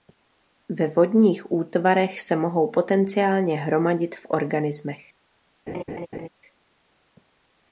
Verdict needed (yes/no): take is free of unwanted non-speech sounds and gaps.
no